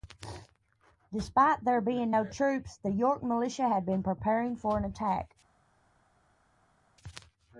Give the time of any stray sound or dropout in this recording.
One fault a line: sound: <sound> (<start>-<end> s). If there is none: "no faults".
no faults